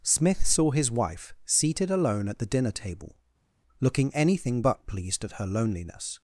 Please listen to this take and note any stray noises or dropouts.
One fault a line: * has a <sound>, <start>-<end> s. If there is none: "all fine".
all fine